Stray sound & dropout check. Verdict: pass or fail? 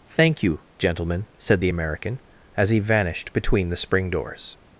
pass